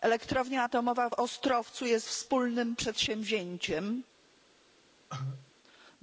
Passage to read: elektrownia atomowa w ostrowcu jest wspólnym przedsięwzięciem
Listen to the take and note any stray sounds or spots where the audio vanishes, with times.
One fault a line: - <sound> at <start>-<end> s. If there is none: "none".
- cough at 5.1-5.5 s